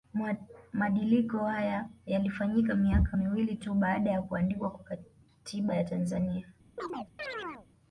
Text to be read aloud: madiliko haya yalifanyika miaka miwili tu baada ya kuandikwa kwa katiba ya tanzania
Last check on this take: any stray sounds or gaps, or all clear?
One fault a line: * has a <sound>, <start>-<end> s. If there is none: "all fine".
* has a chirp, 6.8-7.7 s